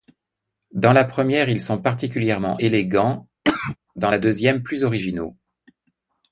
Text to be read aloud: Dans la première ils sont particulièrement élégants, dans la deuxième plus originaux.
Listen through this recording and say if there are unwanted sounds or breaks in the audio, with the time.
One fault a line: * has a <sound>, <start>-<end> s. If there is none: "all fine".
* has a cough, 3.4-3.8 s